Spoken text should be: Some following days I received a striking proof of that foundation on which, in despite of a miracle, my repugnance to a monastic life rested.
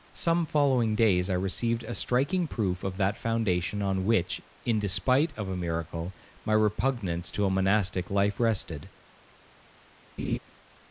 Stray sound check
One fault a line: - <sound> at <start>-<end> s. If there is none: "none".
- laugh at 10.2-10.4 s